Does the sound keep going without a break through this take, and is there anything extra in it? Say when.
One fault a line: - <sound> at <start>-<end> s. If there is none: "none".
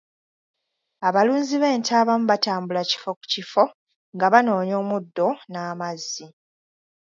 none